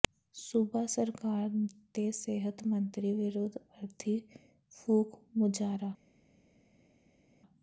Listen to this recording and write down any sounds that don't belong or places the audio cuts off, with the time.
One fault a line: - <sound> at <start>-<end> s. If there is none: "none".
none